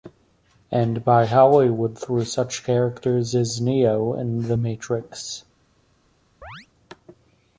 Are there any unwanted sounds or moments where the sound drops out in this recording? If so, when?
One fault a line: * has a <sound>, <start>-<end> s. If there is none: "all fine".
* has a chirp, 6.4-6.7 s